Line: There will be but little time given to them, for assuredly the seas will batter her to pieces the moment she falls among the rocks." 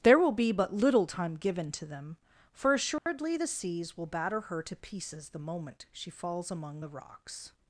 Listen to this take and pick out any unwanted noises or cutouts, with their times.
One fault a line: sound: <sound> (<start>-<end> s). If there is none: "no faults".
sound: dropout (3.0-3.1 s)